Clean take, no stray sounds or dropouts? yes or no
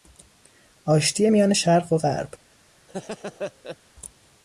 no